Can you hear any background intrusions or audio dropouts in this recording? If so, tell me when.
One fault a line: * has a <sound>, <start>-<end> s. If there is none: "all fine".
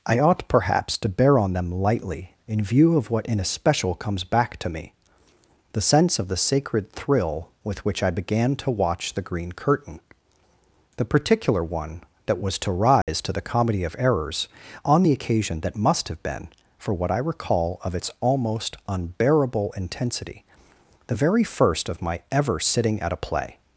* has a dropout, 13.0-13.1 s